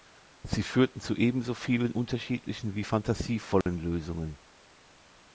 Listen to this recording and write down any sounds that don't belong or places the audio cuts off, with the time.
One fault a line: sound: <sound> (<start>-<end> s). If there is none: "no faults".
sound: dropout (3.6-3.7 s)